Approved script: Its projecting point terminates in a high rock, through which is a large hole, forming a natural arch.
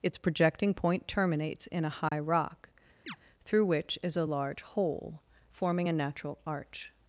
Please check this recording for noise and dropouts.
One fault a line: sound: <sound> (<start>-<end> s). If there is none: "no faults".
sound: dropout (2.1-2.1 s)
sound: chirp (3.1-3.2 s)